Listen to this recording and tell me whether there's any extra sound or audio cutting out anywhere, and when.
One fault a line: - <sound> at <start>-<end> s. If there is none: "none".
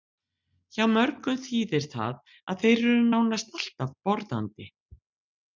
none